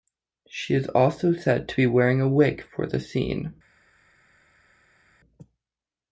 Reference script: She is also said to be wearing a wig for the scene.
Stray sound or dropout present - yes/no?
no